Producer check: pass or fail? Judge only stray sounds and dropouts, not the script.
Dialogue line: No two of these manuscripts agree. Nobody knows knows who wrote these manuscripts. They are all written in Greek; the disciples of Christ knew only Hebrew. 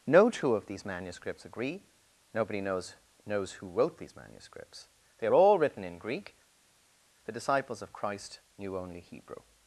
pass